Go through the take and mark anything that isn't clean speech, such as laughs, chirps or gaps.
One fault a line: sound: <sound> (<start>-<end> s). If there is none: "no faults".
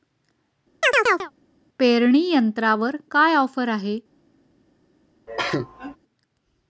sound: chirp (0.8-1.3 s)
sound: cough (5.3-6.0 s)